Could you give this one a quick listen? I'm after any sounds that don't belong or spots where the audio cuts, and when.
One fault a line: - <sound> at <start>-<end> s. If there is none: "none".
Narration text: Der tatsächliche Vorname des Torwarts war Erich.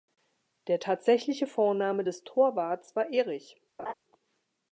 - laugh at 3.8-3.9 s